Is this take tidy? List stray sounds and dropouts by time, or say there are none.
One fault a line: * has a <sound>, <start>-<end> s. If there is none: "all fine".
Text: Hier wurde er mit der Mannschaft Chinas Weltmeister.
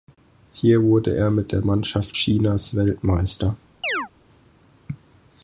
* has a chirp, 3.8-4.1 s